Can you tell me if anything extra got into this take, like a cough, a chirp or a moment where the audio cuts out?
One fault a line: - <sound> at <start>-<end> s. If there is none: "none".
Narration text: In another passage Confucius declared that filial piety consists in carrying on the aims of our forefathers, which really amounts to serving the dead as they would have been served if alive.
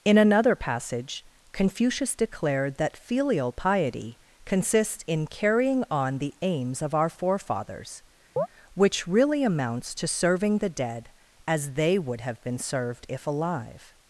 - chirp at 8.4-8.5 s